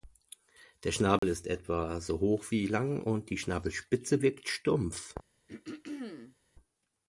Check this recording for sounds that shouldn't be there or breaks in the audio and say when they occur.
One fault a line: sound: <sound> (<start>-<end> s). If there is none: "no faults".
sound: dropout (1.2-1.2 s)
sound: throat clearing (5.5-6.4 s)